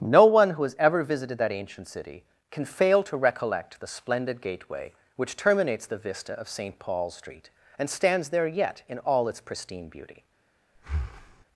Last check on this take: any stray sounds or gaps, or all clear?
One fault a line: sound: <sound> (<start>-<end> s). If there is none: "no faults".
sound: breath (10.7-11.4 s)